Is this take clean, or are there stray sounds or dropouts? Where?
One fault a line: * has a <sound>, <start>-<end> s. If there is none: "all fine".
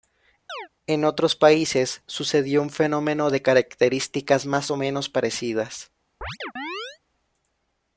* has a chirp, 0.5-0.7 s
* has a chirp, 6.2-7.0 s